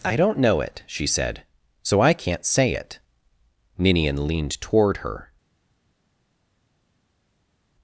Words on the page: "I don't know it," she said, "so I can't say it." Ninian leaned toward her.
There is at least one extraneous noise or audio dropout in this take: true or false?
false